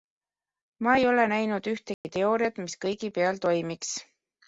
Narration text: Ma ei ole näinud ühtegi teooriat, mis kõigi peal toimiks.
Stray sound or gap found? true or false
true